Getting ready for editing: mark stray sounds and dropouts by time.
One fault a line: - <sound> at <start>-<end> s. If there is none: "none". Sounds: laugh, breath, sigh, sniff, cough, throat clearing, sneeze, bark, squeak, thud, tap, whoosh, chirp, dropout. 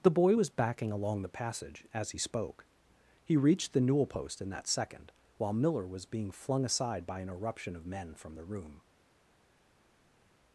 none